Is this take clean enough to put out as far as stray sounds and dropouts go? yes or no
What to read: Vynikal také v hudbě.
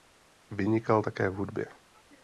yes